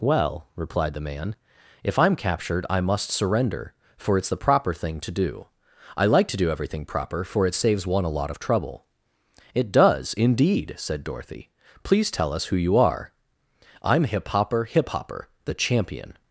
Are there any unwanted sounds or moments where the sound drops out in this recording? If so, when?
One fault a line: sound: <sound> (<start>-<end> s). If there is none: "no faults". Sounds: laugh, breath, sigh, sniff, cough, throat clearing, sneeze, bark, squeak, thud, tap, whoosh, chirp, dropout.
no faults